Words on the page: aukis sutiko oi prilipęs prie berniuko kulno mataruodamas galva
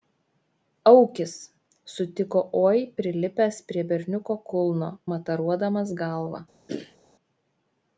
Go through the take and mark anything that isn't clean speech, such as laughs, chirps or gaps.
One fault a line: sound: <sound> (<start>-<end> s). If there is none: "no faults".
sound: throat clearing (6.7-7.0 s)